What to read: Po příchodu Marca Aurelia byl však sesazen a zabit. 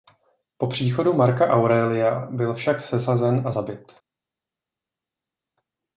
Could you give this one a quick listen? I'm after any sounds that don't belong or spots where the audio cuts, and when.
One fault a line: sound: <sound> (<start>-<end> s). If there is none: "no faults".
no faults